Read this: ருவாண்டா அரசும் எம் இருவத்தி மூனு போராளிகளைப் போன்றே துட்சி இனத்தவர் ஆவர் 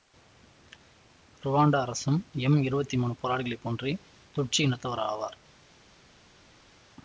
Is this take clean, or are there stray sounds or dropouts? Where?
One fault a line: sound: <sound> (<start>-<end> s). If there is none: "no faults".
no faults